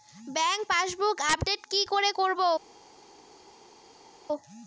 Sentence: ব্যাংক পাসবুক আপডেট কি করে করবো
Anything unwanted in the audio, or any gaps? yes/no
no